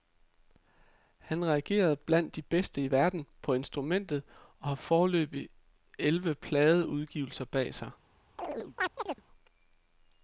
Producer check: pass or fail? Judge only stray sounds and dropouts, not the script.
fail